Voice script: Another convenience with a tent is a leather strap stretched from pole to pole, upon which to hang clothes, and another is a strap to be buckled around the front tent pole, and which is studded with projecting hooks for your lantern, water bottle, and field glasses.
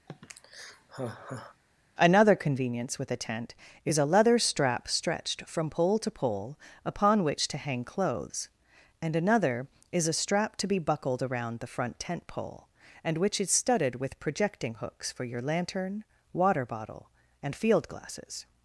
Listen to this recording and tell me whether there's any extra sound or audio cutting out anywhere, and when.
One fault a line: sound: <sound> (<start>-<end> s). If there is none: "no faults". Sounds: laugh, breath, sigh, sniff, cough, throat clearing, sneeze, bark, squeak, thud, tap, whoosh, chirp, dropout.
sound: sigh (0.1-1.6 s)